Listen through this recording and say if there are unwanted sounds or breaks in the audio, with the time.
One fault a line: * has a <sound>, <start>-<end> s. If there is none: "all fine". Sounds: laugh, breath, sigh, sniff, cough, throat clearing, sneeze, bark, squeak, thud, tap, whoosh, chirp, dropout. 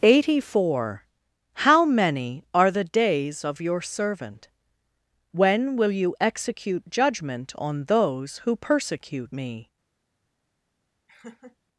* has a laugh, 11.1-11.6 s